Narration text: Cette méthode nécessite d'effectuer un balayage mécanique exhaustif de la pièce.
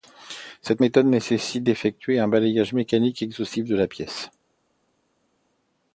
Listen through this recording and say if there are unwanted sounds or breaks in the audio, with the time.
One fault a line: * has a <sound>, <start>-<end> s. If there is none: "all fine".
all fine